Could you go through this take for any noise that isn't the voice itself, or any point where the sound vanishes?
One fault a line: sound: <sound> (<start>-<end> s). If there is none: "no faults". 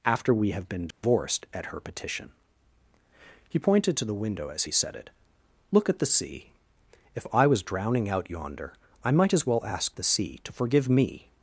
sound: dropout (0.9-1.0 s)